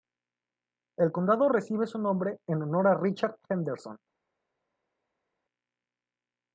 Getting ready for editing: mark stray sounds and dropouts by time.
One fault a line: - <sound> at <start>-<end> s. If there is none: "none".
none